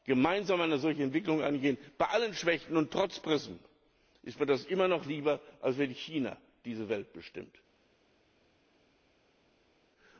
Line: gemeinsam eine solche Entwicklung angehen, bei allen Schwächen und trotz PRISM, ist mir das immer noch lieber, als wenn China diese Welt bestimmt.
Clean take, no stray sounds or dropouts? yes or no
yes